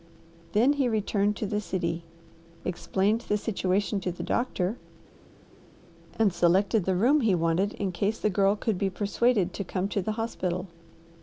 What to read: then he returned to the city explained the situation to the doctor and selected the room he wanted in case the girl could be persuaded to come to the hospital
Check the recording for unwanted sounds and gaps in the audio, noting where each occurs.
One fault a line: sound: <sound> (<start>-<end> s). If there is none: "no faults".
no faults